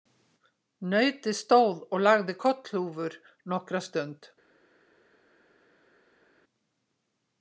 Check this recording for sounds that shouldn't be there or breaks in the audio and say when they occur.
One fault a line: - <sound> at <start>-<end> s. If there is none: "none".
none